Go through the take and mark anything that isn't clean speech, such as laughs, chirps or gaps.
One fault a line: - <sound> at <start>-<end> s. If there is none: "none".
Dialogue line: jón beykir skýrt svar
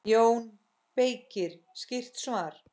none